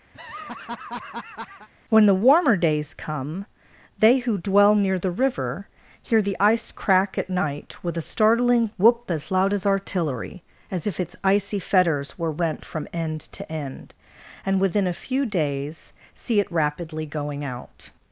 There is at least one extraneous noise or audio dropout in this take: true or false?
true